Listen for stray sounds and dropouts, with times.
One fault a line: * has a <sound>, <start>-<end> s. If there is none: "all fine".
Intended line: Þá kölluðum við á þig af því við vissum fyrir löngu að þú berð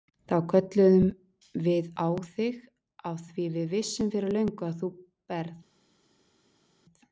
all fine